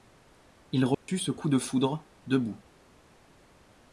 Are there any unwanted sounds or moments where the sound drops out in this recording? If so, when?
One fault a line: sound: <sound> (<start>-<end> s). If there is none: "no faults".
sound: dropout (0.9-1.1 s)